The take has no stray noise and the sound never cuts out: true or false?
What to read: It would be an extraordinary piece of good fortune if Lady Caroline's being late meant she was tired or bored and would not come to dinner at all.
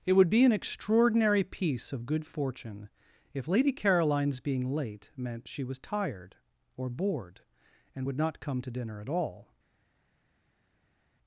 true